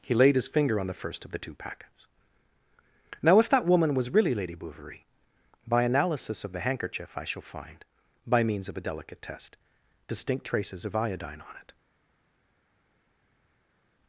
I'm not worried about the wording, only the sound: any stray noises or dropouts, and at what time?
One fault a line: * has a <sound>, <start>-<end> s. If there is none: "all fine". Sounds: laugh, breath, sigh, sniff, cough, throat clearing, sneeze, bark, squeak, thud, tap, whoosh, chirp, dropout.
all fine